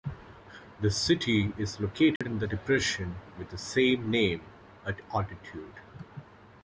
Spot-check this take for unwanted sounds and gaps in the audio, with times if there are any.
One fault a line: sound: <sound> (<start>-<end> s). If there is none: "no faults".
sound: dropout (2.2-2.2 s)